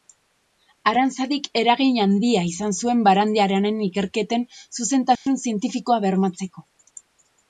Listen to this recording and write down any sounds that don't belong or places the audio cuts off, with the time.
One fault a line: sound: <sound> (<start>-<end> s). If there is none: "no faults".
sound: dropout (5.2-5.3 s)